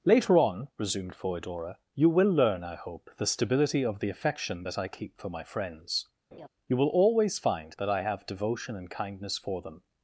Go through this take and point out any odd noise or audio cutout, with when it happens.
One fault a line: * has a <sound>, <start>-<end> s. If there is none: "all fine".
* has a laugh, 6.3-6.5 s